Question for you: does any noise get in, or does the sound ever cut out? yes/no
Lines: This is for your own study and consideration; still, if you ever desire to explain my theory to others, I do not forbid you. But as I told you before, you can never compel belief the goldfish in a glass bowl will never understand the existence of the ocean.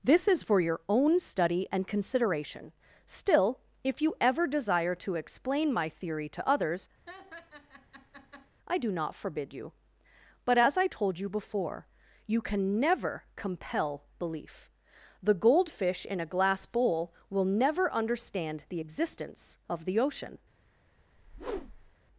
yes